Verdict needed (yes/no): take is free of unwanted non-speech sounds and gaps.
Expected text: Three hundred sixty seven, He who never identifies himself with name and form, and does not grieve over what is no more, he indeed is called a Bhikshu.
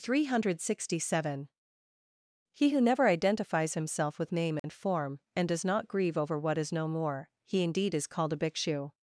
no